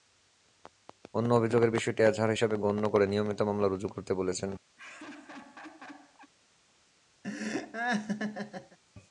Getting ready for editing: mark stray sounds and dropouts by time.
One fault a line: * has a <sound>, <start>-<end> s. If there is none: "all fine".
* has a laugh, 4.8-6.3 s
* has a laugh, 7.2-8.8 s